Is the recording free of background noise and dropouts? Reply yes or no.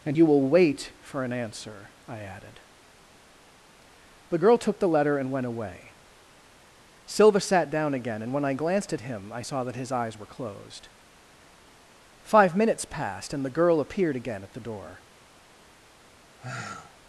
no